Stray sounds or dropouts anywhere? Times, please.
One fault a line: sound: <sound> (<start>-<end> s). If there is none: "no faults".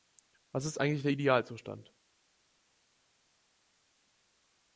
no faults